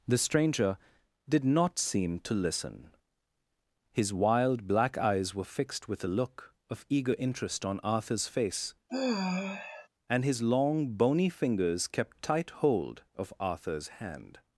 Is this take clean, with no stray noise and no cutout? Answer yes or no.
no